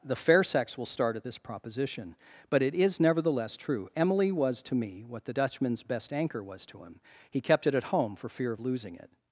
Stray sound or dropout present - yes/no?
no